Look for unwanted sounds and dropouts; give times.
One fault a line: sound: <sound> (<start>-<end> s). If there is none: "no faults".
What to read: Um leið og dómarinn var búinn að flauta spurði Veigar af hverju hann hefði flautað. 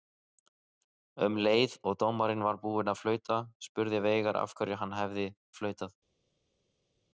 no faults